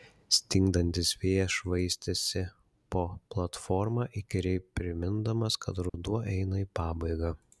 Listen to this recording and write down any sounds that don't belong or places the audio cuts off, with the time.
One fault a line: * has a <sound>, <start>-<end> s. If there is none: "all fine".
* has a dropout, 5.9-5.9 s